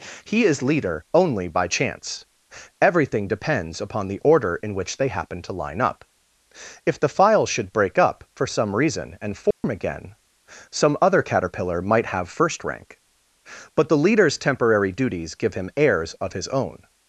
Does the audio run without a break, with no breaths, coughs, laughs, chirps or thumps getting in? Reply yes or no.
no